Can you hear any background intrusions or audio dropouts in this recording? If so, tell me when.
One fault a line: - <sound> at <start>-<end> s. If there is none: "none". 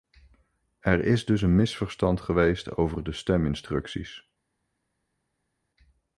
none